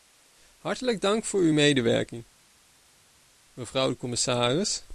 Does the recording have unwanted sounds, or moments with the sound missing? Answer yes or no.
no